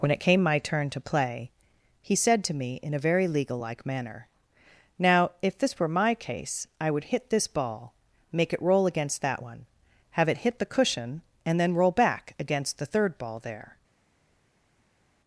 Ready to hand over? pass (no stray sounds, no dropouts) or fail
pass